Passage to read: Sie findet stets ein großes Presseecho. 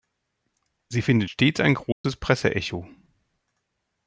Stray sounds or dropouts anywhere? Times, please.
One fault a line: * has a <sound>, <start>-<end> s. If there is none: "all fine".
* has a dropout, 1.9-2.0 s